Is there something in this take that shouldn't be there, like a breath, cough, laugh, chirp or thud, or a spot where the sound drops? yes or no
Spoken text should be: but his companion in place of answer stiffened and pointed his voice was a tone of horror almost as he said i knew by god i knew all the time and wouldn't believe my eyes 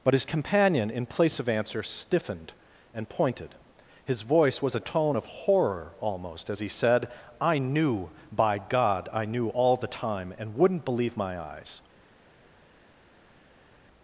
no